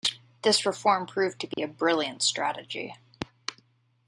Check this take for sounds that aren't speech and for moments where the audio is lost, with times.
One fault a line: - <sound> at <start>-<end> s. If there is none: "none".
- dropout at 1.5-1.6 s